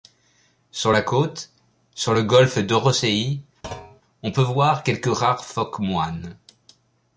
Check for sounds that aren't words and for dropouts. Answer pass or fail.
fail